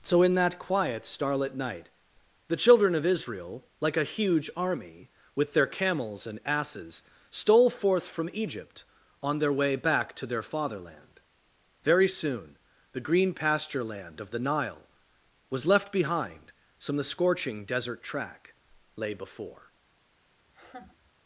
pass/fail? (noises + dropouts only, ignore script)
fail